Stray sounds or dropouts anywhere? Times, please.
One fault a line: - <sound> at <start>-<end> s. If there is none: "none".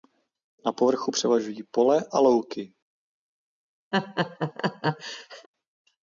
- laugh at 3.9-5.5 s